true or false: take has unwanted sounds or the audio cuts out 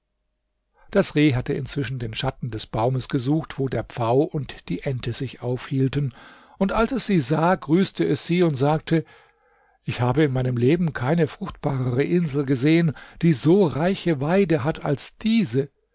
false